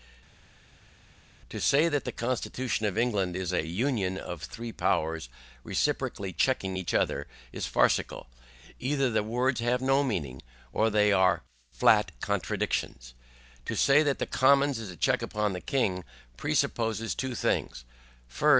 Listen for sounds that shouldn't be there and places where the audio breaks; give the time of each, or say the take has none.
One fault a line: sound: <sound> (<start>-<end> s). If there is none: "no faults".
no faults